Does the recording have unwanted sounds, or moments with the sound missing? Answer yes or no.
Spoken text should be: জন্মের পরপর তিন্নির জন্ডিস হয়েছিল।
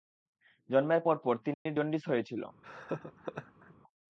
yes